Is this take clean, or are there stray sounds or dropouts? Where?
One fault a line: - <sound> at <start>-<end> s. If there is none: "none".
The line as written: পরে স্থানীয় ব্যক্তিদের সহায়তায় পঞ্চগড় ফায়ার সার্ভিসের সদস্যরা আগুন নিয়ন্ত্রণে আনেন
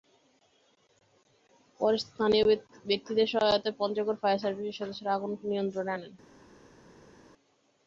none